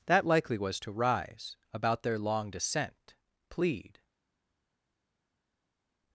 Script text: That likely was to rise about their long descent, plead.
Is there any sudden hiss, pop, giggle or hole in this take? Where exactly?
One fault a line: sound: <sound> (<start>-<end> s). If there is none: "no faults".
no faults